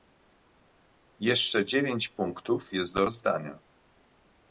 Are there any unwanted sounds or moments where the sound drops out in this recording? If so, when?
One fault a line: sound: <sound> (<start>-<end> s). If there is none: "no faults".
no faults